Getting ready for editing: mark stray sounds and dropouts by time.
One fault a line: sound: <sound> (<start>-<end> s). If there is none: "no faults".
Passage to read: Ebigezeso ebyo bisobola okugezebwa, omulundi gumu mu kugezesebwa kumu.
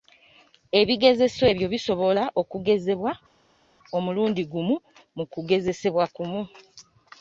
no faults